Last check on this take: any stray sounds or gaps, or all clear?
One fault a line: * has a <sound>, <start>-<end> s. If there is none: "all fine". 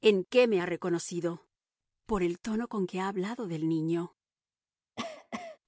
* has a cough, 5.0-5.6 s